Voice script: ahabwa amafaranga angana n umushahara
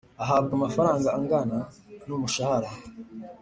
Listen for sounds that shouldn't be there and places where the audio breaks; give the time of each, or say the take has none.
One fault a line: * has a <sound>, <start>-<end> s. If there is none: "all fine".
all fine